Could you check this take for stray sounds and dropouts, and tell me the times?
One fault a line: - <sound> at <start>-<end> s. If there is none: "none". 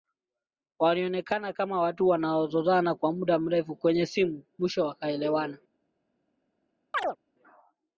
- chirp at 6.9-7.2 s